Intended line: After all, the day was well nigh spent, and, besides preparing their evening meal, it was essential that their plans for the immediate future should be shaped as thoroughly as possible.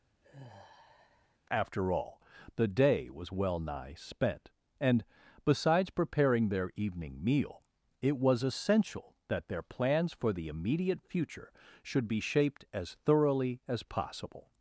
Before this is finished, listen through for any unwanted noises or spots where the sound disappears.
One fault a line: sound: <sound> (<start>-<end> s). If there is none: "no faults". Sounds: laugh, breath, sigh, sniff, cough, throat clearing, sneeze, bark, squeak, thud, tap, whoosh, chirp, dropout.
sound: sigh (0.2-1.4 s)